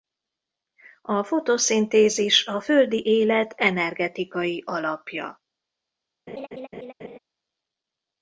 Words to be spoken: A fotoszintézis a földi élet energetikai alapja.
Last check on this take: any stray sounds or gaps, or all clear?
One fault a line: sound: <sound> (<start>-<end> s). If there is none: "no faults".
sound: laugh (6.3-7.2 s)